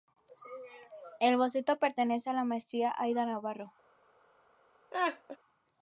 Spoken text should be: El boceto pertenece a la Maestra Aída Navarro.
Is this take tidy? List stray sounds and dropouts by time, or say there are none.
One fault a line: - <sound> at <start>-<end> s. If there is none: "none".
- laugh at 4.9-5.4 s